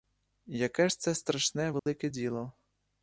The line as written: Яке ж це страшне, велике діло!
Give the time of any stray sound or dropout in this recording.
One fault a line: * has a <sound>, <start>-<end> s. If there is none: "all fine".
* has a dropout, 1.8-1.9 s